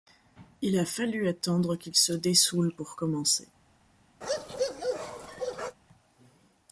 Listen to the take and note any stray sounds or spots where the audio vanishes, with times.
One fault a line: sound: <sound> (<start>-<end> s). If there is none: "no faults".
sound: bark (4.2-5.8 s)